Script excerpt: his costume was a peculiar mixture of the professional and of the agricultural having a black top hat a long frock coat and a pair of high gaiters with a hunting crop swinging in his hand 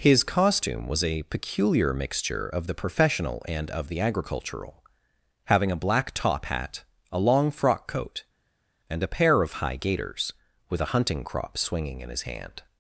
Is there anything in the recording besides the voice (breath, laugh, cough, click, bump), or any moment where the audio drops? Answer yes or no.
no